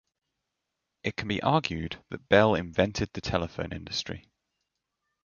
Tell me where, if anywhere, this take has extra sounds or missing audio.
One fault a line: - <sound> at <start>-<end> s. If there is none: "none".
none